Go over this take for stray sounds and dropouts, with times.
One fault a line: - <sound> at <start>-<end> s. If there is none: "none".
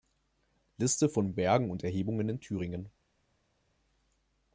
none